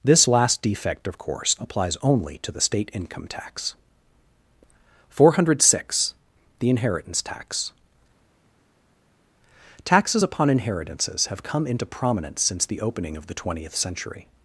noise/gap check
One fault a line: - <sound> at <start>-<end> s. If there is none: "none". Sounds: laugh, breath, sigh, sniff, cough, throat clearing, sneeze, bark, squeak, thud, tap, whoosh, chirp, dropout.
none